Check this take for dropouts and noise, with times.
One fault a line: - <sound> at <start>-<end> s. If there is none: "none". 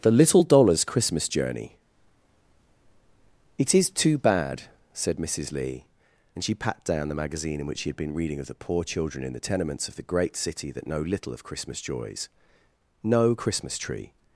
none